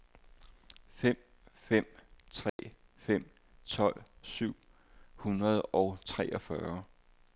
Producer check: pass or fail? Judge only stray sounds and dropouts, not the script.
fail